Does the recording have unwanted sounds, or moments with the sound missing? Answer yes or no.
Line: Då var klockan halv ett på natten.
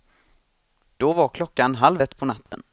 yes